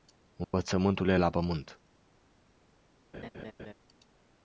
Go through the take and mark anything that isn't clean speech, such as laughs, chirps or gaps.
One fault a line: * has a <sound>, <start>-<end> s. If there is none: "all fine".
* has a dropout, 0.4-0.5 s
* has a laugh, 3.1-3.7 s